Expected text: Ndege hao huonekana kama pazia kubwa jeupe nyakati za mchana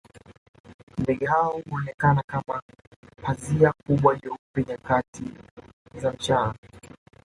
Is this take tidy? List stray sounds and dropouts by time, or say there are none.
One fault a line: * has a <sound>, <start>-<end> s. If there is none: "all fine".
all fine